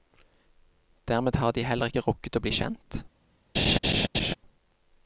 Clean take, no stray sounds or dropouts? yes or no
no